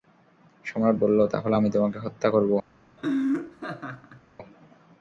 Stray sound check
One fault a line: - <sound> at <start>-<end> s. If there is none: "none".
- laugh at 3.0-4.2 s